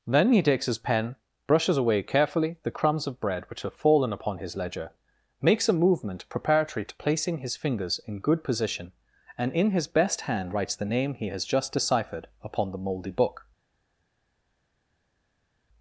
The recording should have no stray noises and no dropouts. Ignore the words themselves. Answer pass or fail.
pass